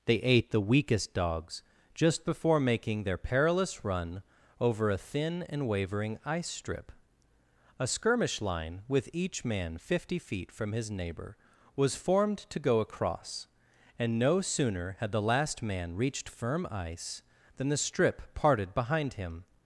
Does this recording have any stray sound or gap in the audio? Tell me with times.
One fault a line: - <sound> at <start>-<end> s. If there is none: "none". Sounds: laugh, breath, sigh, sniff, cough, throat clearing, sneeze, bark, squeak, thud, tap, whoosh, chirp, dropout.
none